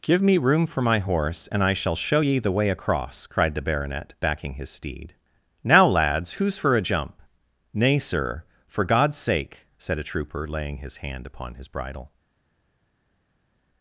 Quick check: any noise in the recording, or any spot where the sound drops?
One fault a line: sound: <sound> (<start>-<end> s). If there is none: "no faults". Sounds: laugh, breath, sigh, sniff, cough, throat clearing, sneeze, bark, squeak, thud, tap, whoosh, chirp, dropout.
no faults